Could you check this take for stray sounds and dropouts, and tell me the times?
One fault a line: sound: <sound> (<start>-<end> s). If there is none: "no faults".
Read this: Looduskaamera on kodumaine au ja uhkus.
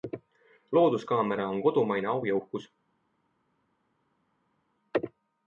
no faults